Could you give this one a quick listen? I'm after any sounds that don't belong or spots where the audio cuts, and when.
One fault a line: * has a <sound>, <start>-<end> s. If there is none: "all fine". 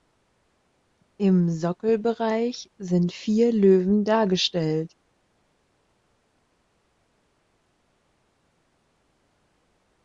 all fine